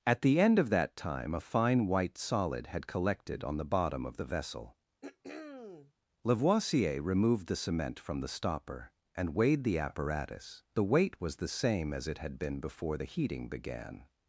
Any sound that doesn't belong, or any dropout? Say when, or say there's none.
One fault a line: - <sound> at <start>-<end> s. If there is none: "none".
- throat clearing at 5.0-5.9 s